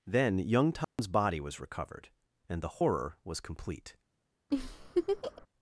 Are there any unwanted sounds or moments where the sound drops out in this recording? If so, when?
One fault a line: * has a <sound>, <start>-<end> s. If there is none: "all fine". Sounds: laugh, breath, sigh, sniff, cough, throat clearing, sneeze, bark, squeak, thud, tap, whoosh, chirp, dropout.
* has a dropout, 0.8-1.0 s
* has a laugh, 4.5-5.5 s